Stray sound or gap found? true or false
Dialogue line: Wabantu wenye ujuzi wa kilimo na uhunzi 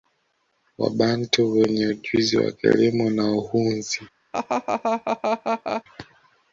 true